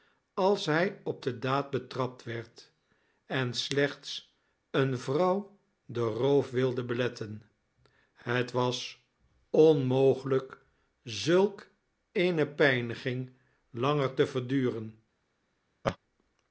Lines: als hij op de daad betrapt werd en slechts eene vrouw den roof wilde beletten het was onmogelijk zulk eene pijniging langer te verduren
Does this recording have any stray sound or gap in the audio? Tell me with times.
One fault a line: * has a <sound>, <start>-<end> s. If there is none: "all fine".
* has a laugh, 15.8-16.0 s